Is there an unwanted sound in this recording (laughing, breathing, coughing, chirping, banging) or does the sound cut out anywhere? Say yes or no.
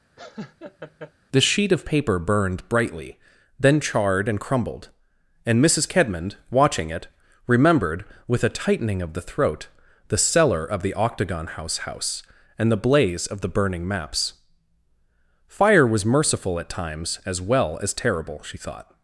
yes